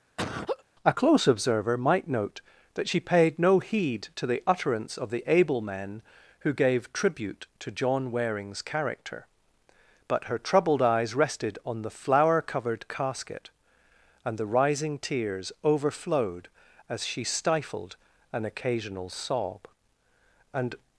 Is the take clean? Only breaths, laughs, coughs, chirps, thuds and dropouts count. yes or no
no